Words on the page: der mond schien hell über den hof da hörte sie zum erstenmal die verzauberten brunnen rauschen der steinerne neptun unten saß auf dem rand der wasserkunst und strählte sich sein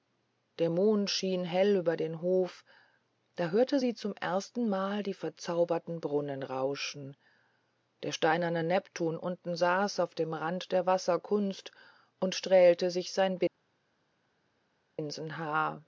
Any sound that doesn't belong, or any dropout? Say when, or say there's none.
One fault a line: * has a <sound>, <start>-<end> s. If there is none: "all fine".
all fine